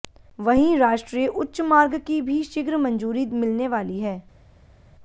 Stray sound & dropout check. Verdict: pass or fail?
pass